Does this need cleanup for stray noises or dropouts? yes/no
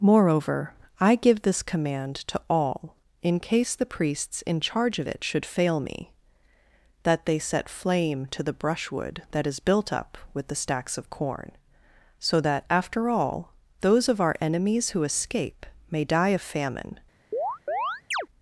yes